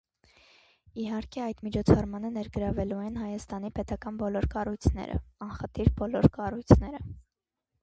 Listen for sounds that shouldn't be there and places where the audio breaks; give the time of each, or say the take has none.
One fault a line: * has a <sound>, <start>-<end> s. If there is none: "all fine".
all fine